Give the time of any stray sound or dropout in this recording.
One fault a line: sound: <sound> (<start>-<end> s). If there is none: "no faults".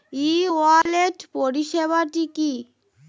sound: dropout (0.8-0.9 s)